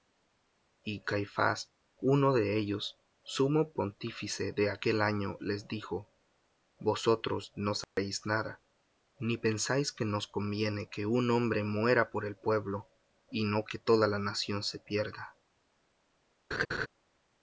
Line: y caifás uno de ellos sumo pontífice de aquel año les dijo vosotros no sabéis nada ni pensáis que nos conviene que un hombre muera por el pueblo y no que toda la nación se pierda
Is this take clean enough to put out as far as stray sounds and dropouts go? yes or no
no